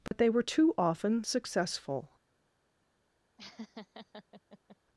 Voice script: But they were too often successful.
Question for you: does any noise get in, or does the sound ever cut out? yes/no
yes